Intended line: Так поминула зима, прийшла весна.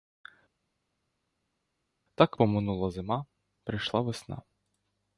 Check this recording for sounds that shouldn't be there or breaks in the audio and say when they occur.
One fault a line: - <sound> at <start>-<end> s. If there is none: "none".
none